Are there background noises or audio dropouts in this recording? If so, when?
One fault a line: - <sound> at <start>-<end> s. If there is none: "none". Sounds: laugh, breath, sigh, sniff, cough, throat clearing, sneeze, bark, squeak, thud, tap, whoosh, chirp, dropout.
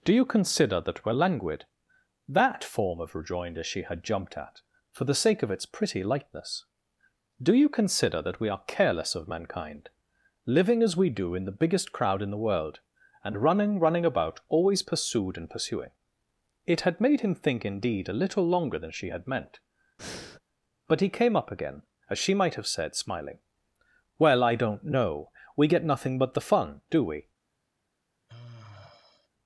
- breath at 20.0-20.4 s
- sigh at 28.3-29.3 s